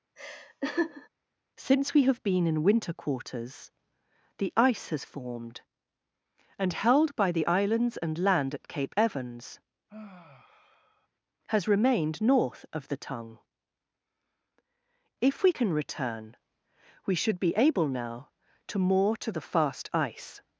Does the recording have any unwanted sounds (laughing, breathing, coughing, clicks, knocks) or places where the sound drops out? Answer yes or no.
yes